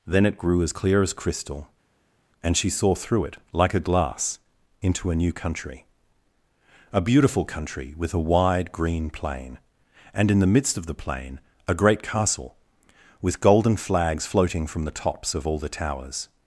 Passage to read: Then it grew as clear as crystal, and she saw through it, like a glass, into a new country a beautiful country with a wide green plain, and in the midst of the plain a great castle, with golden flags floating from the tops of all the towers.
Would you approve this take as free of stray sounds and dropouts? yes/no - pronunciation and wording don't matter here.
yes